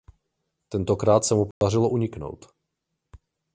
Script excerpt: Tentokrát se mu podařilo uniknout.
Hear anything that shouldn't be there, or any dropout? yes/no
yes